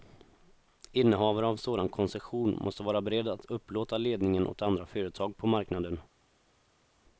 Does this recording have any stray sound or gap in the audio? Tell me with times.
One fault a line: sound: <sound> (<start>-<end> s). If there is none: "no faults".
no faults